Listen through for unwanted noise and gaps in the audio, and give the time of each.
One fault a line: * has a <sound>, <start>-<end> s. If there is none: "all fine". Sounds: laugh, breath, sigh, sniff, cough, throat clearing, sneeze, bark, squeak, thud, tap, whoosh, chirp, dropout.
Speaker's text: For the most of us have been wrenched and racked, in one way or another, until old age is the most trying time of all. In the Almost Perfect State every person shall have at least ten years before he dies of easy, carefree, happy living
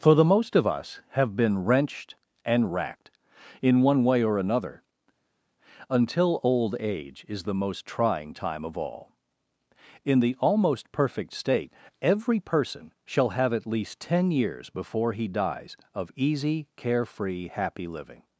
all fine